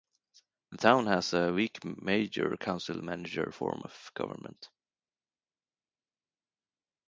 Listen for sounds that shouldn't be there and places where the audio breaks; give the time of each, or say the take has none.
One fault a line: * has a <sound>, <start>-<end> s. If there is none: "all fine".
all fine